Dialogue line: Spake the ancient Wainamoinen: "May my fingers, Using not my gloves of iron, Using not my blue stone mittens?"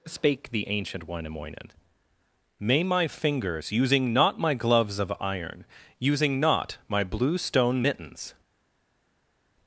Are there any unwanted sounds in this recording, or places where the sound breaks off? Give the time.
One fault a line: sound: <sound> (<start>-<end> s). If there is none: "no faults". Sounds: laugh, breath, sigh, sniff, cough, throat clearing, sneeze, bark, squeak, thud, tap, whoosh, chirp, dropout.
no faults